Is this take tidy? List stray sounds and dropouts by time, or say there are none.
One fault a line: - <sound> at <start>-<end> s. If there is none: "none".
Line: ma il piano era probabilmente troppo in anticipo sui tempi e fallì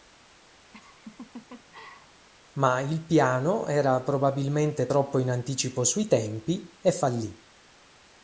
- laugh at 0.7-2.3 s